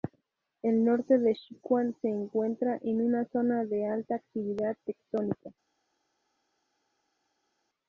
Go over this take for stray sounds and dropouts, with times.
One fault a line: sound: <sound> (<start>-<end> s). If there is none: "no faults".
no faults